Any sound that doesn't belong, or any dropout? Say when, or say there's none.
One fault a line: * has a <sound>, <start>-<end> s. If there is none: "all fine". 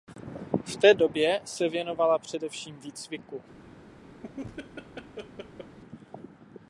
* has a laugh, 4.2-5.8 s